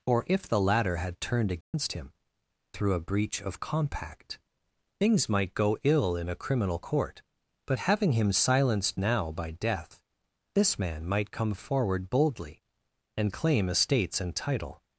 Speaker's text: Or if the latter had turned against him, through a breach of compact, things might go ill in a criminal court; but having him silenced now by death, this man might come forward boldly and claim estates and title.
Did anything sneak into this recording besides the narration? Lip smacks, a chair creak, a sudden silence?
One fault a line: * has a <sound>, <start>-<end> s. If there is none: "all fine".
* has a dropout, 1.6-1.7 s